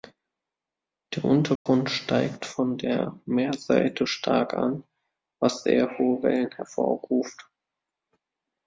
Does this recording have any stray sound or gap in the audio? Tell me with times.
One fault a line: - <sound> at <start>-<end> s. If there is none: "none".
- dropout at 1.6-1.7 s